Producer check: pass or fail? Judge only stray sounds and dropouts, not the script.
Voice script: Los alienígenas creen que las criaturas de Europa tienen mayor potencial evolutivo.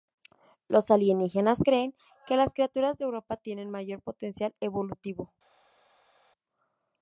pass